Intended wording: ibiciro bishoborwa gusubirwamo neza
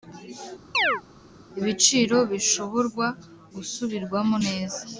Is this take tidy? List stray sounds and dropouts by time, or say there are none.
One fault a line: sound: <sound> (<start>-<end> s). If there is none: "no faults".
sound: chirp (0.7-1.0 s)